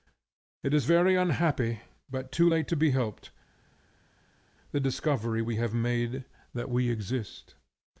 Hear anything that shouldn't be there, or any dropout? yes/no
no